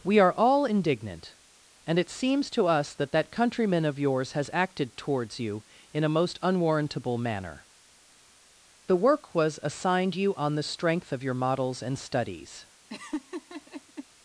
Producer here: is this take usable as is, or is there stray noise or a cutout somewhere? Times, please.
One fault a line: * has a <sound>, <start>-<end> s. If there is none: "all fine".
* has a laugh, 12.9-14.1 s